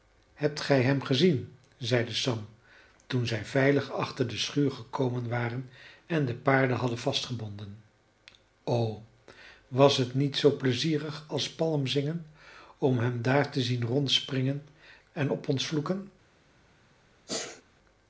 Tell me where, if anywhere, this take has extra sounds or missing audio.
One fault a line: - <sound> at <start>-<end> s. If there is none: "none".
- sneeze at 17.3-17.6 s